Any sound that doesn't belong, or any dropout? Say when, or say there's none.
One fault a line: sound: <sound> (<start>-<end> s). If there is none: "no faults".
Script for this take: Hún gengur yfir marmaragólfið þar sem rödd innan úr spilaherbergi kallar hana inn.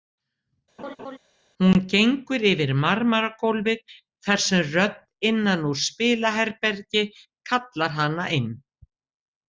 sound: laugh (0.8-1.2 s)